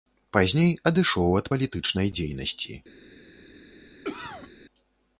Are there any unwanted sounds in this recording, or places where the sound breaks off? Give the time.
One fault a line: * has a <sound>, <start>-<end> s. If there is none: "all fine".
* has a cough, 4.0-4.5 s